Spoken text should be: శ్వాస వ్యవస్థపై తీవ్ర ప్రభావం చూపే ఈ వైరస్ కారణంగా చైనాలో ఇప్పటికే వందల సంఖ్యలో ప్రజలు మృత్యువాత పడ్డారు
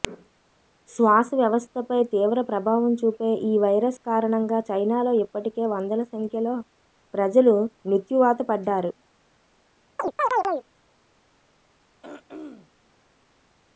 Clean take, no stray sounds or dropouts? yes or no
no